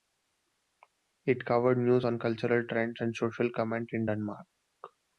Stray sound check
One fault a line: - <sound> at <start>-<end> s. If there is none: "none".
none